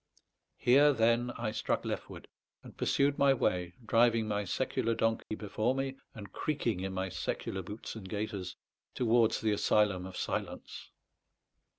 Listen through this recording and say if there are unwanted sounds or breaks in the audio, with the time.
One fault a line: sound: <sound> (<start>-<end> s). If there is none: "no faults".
sound: dropout (5.2-5.3 s)